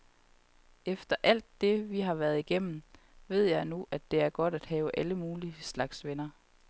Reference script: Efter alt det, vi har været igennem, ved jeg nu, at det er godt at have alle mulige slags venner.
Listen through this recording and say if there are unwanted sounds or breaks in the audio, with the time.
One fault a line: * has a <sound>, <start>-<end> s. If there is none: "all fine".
all fine